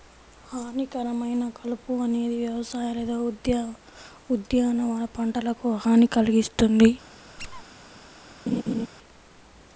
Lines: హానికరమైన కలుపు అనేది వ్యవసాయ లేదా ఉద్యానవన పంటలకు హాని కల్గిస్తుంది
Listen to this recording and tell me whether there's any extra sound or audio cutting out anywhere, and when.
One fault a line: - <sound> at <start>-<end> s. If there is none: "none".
- squeak at 7.4-7.6 s
- laugh at 8.5-8.9 s